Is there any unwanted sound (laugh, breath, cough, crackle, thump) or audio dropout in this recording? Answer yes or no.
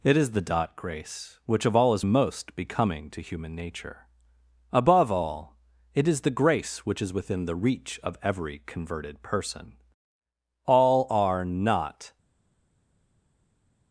no